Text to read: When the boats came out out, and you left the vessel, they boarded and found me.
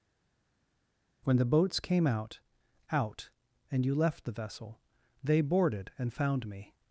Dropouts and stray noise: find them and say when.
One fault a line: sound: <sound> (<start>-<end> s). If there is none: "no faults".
no faults